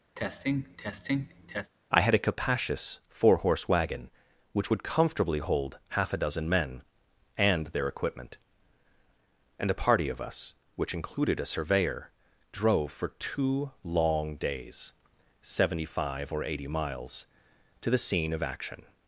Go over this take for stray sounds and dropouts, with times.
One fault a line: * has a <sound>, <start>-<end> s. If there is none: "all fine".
* has a cough, 0.2-1.7 s